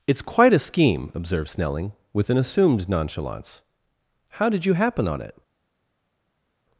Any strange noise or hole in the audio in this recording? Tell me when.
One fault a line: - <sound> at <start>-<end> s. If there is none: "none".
none